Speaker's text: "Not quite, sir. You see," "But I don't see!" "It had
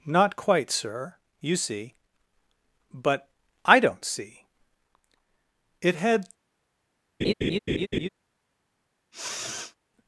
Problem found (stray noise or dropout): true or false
true